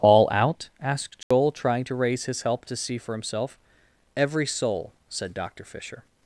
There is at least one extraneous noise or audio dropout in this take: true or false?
true